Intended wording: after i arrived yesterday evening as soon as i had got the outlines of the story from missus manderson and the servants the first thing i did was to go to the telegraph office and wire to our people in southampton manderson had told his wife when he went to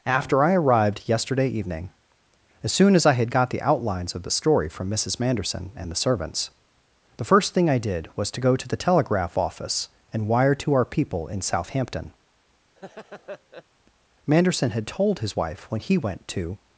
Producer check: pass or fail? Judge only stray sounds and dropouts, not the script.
fail